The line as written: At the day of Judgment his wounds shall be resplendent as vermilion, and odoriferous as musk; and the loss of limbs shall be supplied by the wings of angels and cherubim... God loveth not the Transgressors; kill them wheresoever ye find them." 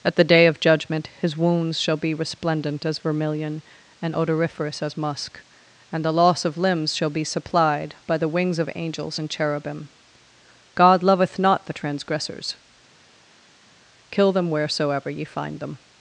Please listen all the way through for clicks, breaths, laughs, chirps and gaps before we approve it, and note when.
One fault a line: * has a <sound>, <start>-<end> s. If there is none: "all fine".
all fine